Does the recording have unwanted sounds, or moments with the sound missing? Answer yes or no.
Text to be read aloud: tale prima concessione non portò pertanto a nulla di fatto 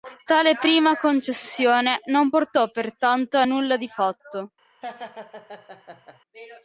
yes